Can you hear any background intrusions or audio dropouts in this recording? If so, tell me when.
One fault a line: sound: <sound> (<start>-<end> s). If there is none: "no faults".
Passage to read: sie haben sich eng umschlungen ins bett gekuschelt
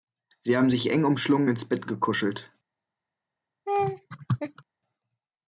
sound: laugh (3.7-4.6 s)